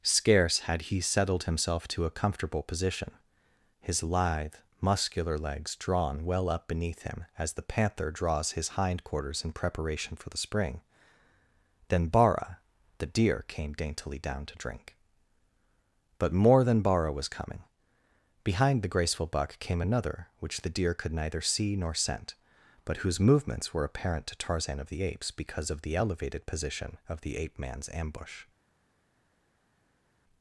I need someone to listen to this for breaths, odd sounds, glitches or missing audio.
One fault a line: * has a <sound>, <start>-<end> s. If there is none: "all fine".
all fine